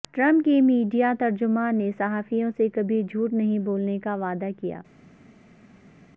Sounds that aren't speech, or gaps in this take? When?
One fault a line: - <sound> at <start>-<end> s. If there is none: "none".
none